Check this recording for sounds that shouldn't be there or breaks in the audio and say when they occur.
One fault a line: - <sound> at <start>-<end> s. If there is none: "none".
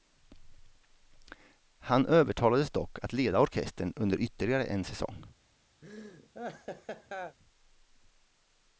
- laugh at 5.8-7.4 s